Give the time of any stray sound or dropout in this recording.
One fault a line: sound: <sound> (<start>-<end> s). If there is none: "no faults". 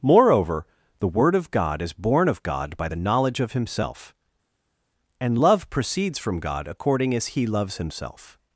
no faults